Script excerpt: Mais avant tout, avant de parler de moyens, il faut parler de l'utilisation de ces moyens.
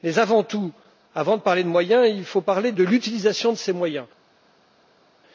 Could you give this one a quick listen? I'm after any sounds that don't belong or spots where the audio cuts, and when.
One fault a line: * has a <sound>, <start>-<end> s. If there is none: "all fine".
all fine